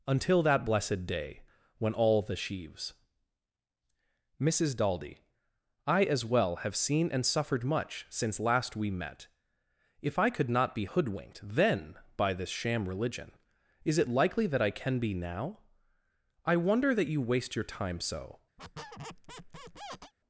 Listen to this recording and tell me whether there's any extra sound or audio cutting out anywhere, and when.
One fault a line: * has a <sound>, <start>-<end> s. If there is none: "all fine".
* has a squeak, 18.6-20.1 s